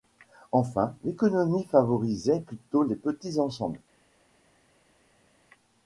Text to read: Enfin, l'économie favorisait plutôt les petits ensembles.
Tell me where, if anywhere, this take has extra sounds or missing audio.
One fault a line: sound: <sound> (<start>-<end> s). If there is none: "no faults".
no faults